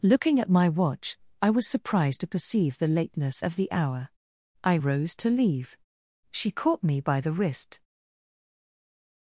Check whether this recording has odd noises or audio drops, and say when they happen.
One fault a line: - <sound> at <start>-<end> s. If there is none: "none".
none